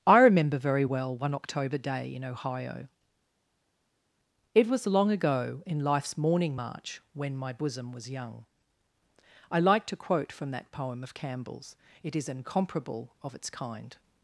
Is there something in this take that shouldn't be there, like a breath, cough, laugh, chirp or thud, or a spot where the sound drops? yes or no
no